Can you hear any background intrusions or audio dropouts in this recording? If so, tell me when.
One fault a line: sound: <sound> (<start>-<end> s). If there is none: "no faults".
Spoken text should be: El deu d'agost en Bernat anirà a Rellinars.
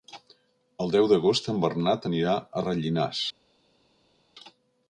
no faults